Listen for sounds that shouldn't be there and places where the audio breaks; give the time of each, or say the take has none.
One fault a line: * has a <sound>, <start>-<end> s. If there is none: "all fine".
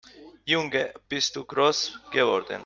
all fine